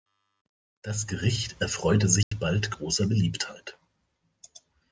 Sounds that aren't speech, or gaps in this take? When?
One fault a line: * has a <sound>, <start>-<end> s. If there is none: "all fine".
* has a dropout, 2.2-2.3 s